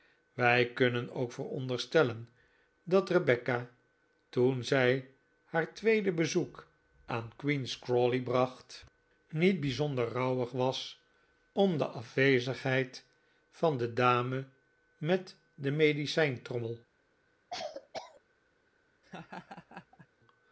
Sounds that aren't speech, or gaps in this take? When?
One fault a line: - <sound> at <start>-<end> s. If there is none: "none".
- cough at 17.5-18.2 s
- laugh at 19.0-20.1 s